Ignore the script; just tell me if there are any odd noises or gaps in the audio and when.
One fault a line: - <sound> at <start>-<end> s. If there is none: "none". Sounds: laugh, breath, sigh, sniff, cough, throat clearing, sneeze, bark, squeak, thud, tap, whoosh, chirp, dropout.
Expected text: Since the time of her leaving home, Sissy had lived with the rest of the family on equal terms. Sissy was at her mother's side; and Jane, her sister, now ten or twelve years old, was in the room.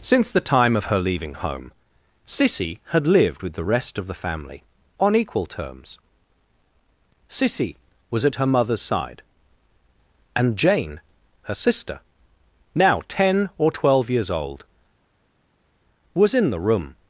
none